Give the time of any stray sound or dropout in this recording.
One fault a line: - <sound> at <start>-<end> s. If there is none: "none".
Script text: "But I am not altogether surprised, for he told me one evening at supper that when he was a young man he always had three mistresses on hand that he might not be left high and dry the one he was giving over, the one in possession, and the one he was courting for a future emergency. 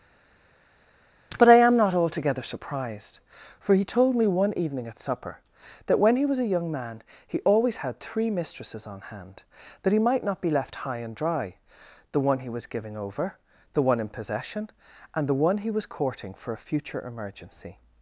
none